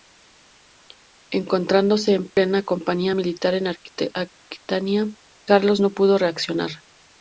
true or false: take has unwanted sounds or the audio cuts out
true